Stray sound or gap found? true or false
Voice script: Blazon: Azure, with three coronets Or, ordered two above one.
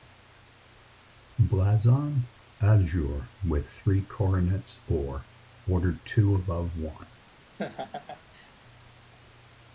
true